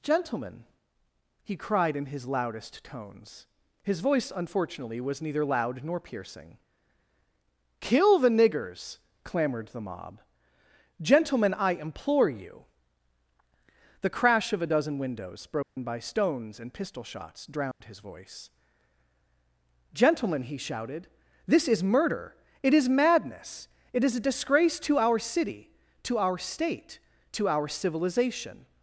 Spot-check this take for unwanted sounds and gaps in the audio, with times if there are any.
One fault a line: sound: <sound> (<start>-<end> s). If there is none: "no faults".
sound: dropout (15.6-15.8 s)
sound: dropout (17.7-17.8 s)